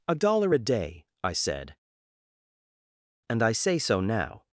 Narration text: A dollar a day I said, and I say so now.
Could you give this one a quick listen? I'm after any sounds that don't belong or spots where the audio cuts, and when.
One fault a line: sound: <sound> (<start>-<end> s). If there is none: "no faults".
no faults